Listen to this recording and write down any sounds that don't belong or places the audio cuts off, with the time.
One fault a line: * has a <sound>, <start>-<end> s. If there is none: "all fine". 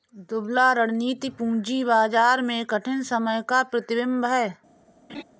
* has a laugh, 5.1-5.2 s